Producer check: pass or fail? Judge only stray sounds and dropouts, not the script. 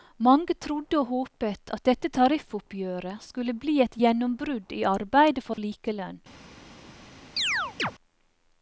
fail